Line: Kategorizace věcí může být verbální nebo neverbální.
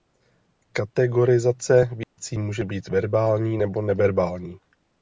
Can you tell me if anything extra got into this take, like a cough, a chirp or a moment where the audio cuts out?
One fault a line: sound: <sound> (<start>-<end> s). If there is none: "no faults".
sound: dropout (2.0-2.2 s)